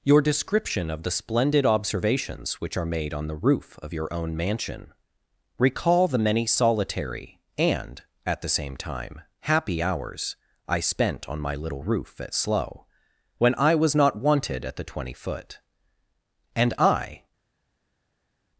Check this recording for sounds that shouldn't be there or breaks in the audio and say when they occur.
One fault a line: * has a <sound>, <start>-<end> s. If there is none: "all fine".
all fine